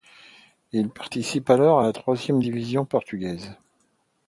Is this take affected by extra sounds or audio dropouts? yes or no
no